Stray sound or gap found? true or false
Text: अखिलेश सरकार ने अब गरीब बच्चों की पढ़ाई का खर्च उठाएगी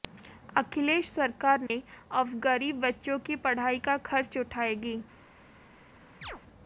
true